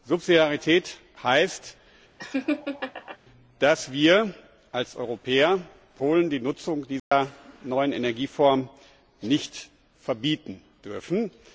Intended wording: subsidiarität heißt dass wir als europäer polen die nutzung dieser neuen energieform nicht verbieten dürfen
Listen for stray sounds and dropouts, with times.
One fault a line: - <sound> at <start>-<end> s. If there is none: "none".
- laugh at 2.2-3.2 s
- dropout at 7.0-7.1 s